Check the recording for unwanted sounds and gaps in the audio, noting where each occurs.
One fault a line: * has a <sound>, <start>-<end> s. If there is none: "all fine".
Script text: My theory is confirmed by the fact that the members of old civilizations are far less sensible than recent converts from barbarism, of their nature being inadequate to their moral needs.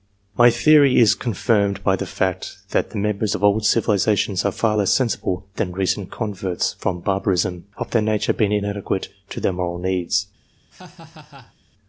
* has a laugh, 10.7-11.5 s